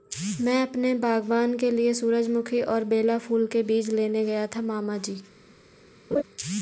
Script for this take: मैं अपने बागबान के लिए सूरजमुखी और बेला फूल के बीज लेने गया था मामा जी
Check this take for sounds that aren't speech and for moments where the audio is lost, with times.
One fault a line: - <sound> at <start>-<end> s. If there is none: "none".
- laugh at 6.1-6.2 s